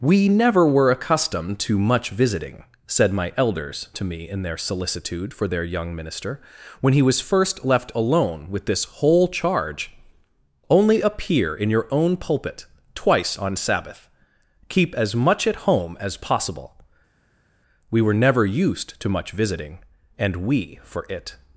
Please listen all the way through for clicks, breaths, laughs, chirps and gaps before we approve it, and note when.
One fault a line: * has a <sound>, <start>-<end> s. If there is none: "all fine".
all fine